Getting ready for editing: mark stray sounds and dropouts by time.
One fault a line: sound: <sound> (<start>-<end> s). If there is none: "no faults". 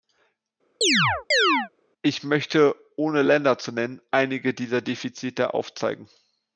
sound: chirp (0.8-1.7 s)